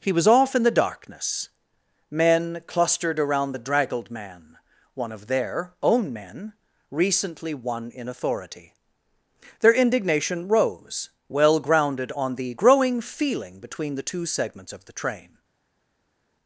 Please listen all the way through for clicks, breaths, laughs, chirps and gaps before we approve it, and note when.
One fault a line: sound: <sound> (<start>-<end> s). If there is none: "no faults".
no faults